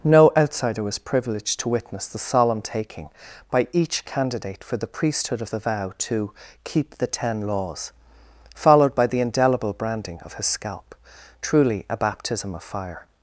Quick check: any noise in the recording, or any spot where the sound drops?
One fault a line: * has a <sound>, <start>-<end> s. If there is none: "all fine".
all fine